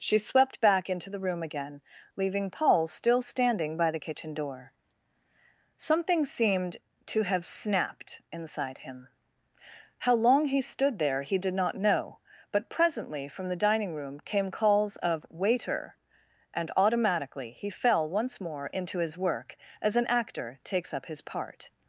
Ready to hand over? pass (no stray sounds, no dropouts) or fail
pass